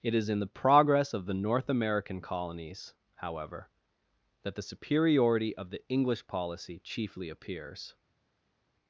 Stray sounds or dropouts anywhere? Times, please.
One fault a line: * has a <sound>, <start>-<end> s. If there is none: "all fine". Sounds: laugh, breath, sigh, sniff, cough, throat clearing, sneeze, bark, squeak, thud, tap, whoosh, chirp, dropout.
all fine